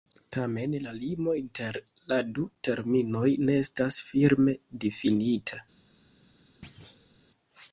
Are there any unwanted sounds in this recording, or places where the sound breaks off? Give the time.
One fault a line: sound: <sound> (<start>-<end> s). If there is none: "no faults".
sound: thud (6.6-7.2 s)